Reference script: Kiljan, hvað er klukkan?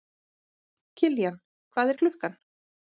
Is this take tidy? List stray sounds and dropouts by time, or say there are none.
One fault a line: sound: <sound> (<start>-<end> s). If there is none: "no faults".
no faults